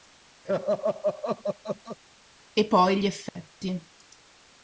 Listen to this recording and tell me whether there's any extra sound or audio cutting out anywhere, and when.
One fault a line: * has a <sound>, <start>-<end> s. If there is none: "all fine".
* has a laugh, 0.5-2.0 s
* has a dropout, 3.3-3.4 s